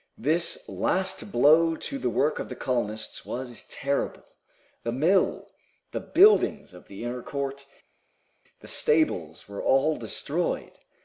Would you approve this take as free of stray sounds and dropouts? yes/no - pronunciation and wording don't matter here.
yes